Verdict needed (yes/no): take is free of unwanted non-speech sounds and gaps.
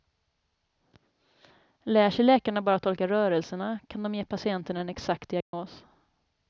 no